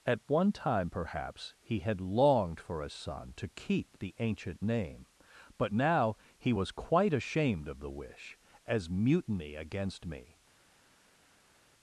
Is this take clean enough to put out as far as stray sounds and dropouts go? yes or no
yes